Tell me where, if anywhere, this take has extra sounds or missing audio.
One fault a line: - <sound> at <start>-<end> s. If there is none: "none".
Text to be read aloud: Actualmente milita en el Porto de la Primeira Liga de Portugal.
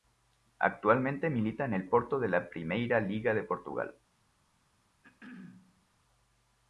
- throat clearing at 5.0-5.9 s